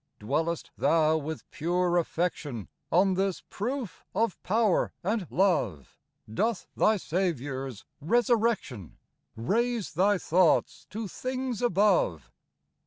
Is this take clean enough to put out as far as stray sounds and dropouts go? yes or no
yes